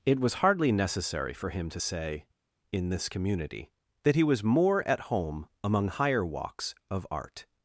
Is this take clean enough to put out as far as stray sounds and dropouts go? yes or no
yes